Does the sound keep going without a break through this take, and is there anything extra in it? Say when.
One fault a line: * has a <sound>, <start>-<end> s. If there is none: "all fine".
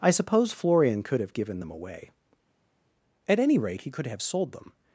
all fine